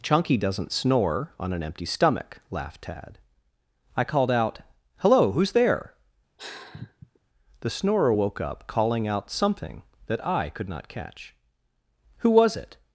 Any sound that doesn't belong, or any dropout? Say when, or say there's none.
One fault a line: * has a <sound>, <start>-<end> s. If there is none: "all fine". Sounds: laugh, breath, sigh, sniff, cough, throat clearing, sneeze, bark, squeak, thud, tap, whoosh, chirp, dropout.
* has a sigh, 6.4-7.2 s